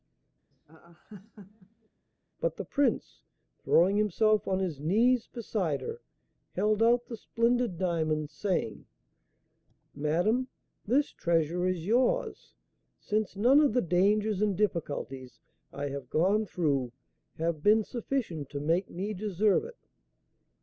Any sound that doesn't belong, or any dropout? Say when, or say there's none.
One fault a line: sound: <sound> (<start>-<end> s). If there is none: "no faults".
sound: laugh (0.5-1.9 s)